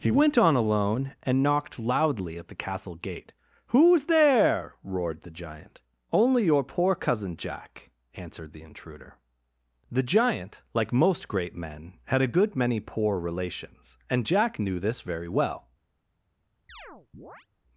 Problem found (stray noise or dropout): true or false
true